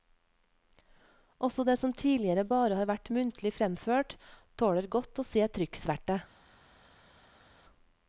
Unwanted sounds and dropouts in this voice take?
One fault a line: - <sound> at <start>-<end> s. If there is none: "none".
none